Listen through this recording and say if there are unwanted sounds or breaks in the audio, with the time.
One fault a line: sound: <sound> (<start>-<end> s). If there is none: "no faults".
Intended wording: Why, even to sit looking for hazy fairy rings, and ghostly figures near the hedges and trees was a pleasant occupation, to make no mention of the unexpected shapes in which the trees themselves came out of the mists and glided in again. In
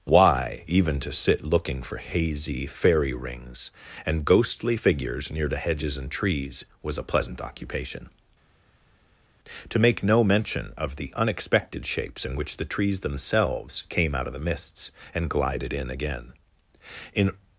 no faults